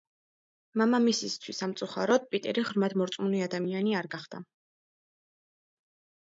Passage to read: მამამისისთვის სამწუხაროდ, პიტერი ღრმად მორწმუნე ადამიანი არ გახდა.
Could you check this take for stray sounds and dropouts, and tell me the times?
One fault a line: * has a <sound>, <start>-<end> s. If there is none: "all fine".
all fine